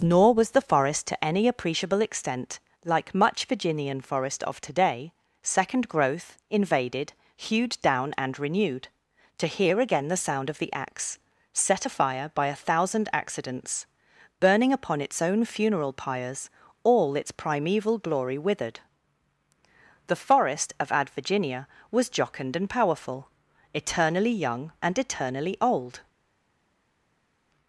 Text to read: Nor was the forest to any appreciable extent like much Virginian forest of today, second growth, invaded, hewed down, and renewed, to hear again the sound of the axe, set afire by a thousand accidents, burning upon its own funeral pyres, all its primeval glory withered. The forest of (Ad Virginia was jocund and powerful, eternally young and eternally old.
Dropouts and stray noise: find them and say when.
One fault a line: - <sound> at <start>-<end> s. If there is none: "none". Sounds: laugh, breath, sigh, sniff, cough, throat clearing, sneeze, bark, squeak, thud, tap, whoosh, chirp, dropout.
none